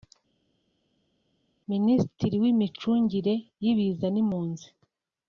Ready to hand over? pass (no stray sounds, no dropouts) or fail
pass